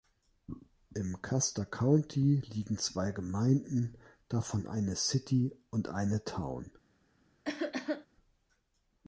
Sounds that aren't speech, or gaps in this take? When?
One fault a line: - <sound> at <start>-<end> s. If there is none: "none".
- cough at 7.4-8.1 s